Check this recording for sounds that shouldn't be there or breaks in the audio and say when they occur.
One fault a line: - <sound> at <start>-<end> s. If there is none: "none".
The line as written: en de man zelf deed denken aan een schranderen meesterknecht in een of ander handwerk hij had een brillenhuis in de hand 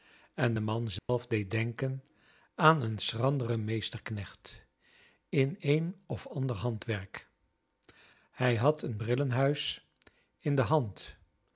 - dropout at 1.0-1.1 s